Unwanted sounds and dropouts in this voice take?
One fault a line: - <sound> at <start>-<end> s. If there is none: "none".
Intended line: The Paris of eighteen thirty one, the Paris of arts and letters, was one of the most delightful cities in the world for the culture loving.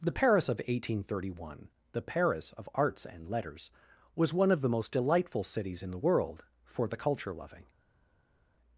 none